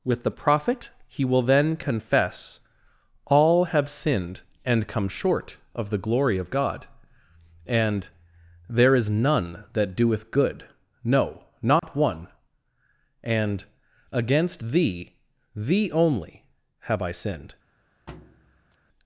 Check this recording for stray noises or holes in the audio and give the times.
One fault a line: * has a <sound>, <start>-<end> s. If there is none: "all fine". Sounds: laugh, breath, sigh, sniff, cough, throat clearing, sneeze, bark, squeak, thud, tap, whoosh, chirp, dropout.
* has a dropout, 11.8-11.8 s
* has a thud, 18.1-18.8 s